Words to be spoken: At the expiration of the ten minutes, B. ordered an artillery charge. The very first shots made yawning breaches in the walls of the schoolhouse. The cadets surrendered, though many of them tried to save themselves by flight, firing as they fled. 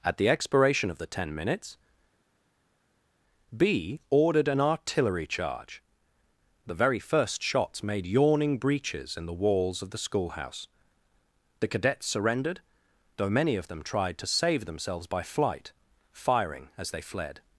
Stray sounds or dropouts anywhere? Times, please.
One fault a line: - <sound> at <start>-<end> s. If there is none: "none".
none